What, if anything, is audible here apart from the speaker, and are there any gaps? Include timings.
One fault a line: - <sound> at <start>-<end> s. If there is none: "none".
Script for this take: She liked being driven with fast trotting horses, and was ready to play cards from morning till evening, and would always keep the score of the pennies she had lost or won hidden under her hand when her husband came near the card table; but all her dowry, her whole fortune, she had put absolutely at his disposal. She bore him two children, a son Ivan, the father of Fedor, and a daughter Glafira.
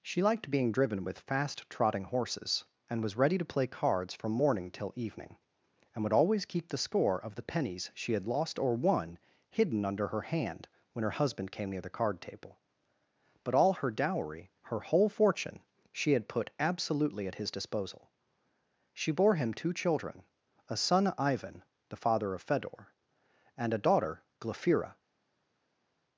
none